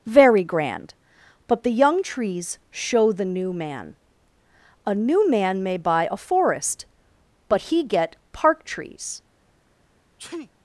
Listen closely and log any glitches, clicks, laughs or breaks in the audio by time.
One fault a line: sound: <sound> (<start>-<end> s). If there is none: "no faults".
sound: sneeze (10.2-10.5 s)